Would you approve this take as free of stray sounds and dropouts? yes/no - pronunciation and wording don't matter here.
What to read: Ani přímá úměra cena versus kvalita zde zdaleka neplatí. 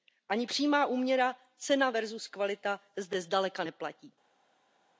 yes